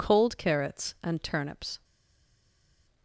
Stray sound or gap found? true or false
false